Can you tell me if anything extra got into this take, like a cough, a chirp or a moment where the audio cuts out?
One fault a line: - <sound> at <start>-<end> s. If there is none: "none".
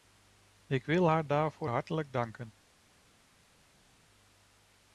none